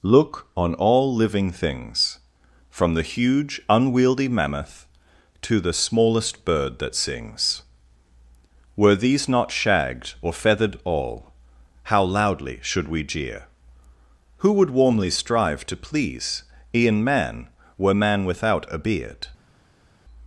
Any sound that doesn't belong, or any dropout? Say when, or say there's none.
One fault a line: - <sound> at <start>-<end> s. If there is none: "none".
none